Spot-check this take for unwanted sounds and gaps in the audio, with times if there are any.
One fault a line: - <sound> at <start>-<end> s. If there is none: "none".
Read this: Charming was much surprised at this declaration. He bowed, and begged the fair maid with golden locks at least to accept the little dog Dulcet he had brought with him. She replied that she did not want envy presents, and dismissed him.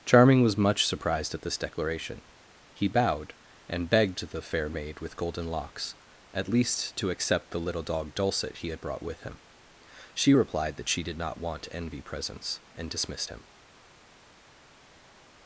none